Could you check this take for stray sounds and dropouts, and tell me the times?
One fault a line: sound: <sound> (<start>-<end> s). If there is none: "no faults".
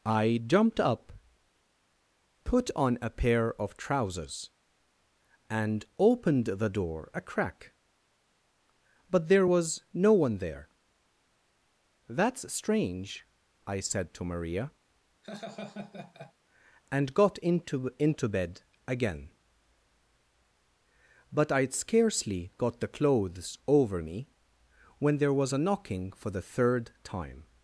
sound: laugh (15.2-16.3 s)